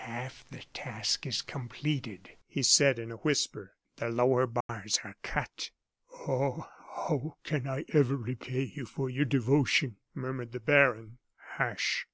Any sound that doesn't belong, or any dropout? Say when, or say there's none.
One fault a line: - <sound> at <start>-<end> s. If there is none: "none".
- dropout at 4.6-4.7 s